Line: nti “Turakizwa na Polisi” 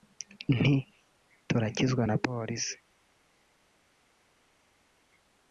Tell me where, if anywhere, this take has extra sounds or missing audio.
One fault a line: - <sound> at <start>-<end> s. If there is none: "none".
none